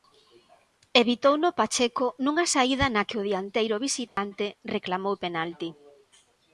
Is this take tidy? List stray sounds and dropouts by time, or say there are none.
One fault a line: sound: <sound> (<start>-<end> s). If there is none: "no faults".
sound: dropout (4.1-4.2 s)